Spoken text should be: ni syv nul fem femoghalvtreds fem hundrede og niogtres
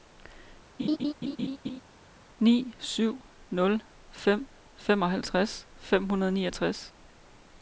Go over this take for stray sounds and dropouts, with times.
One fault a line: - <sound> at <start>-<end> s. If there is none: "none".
- laugh at 0.8-1.8 s